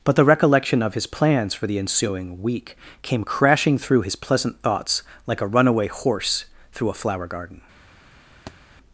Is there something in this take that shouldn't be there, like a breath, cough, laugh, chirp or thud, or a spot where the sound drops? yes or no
yes